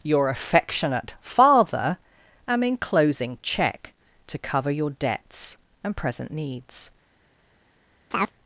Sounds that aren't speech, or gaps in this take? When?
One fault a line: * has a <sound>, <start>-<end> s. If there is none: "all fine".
* has a chirp, 8.1-8.3 s